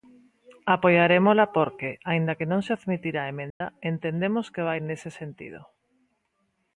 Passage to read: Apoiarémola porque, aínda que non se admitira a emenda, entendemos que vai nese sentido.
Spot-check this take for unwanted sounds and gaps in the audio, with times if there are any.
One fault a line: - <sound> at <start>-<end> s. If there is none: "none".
- dropout at 3.5-3.6 s